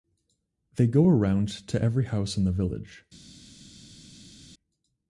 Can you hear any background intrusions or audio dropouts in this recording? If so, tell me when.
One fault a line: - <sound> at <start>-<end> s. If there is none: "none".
none